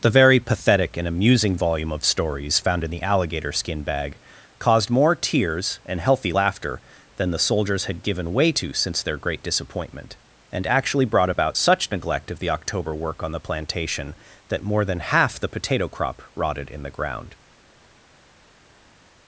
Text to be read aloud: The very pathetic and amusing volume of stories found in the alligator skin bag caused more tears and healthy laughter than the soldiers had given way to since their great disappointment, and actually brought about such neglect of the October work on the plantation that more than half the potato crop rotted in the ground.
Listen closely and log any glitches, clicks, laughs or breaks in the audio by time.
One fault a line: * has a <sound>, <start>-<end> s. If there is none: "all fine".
all fine